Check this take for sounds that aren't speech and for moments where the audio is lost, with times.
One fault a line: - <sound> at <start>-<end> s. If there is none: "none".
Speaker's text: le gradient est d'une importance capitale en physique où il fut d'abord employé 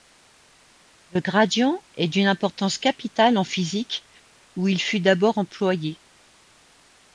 none